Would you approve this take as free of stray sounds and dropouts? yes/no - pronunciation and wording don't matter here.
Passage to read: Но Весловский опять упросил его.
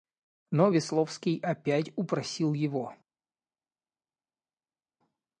yes